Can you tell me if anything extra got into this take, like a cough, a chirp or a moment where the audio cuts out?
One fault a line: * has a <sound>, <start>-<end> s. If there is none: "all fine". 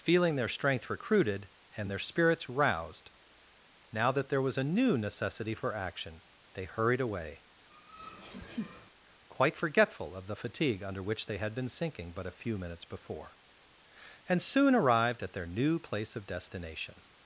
* has a laugh, 7.7-8.9 s